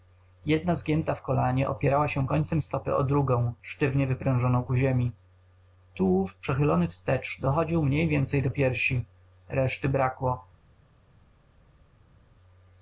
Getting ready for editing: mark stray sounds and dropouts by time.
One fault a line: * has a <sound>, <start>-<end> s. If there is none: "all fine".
all fine